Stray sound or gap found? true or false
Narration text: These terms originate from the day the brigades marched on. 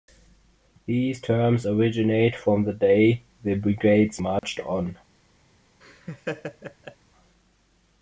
true